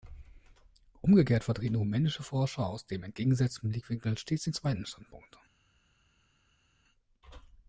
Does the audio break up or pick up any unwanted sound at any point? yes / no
no